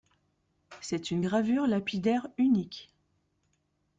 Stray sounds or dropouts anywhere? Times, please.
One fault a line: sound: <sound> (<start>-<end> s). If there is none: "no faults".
no faults